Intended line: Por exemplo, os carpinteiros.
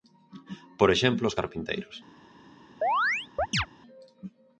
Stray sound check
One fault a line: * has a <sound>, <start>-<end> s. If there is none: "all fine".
* has a chirp, 2.8-3.7 s